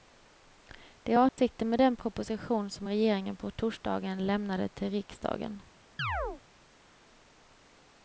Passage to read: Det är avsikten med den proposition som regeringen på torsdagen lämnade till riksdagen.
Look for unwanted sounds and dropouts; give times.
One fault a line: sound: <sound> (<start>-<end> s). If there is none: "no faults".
sound: dropout (1.3-1.4 s)
sound: chirp (6.0-6.4 s)